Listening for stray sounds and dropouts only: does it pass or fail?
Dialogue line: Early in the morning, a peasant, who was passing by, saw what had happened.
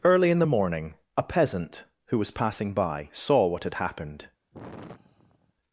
fail